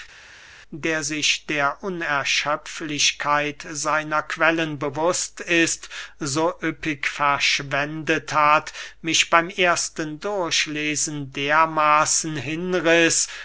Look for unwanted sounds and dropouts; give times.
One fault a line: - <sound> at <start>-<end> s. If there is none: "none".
none